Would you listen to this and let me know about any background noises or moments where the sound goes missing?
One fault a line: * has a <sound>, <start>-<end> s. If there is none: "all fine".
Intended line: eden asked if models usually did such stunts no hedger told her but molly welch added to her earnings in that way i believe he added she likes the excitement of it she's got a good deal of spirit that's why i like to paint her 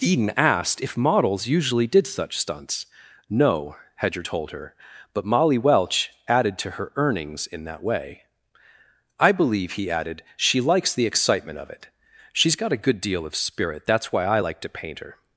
all fine